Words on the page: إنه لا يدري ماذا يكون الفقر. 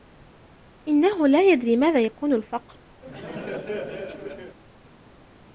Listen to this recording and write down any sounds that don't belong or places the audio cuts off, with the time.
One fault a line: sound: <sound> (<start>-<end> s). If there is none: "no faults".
sound: laugh (3.0-4.6 s)